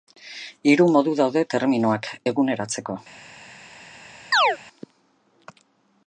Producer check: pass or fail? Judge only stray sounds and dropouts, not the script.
fail